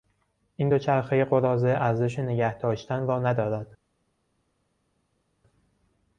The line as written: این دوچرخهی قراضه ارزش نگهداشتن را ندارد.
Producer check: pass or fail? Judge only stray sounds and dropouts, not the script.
pass